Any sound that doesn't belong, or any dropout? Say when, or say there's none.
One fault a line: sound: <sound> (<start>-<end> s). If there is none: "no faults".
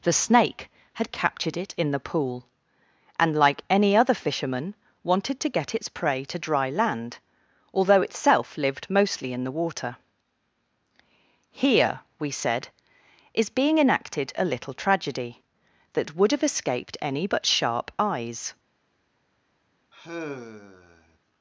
sound: sigh (19.9-21.2 s)